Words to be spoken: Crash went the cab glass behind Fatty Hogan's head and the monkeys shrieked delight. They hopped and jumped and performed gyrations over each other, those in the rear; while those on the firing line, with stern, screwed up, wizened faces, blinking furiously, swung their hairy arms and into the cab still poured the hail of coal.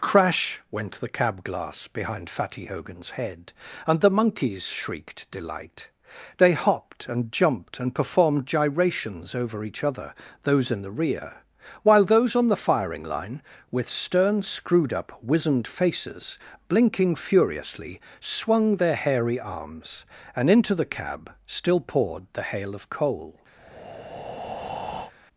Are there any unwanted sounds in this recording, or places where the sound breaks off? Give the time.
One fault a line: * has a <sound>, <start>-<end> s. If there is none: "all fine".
* has a breath, 23.6-25.1 s